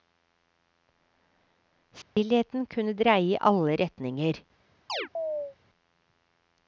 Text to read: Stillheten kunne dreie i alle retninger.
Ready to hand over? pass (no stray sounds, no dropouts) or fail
fail